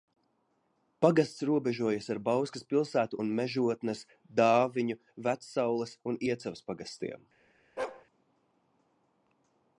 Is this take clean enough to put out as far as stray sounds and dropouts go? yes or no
no